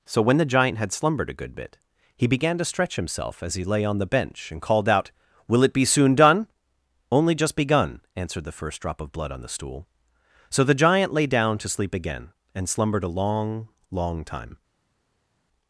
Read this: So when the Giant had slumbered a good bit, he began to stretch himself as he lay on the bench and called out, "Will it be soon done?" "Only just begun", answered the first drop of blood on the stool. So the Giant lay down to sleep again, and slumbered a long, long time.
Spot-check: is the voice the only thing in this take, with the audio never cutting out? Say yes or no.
yes